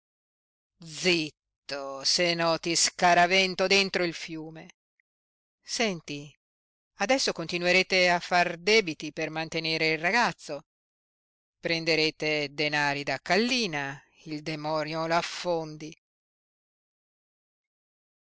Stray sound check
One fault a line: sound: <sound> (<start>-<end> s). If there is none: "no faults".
no faults